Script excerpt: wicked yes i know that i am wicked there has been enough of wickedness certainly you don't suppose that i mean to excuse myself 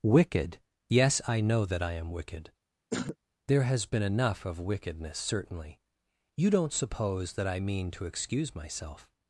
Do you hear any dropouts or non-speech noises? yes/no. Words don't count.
yes